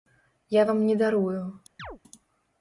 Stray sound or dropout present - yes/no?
yes